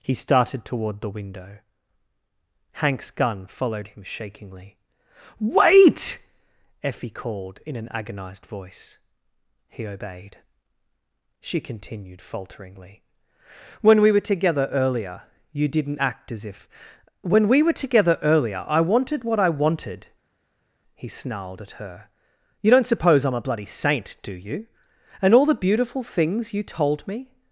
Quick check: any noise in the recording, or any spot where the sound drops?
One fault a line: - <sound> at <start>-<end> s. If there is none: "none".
none